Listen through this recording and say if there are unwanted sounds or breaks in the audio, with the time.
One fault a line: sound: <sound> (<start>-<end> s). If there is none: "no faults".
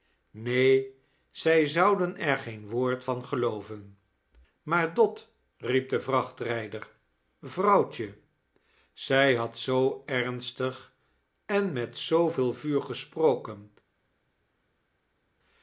no faults